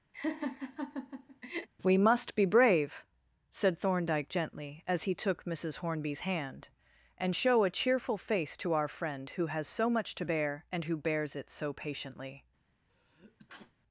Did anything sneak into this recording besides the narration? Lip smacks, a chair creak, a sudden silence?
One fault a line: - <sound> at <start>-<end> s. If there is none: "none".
- laugh at 0.1-1.7 s
- sneeze at 12.9-13.7 s